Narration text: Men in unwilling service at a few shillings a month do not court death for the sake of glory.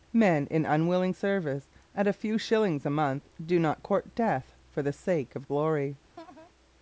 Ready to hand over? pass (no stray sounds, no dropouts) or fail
fail